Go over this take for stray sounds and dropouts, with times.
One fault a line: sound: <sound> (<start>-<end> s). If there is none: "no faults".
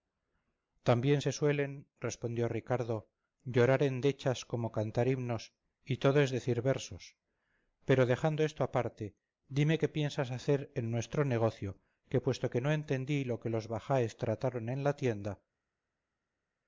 no faults